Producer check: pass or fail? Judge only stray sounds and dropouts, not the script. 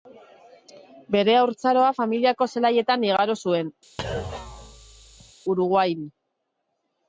fail